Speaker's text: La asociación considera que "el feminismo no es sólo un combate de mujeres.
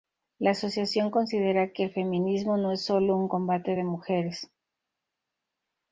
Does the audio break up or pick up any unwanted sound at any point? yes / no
no